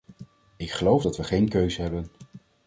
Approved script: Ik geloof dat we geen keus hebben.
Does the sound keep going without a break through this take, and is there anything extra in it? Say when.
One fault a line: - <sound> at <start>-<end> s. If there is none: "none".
none